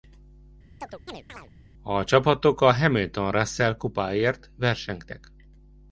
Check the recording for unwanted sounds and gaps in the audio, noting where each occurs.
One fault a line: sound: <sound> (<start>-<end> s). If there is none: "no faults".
sound: chirp (0.8-1.5 s)